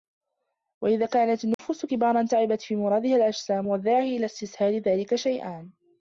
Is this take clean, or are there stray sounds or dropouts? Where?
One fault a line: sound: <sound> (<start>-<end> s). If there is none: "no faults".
sound: dropout (1.5-1.6 s)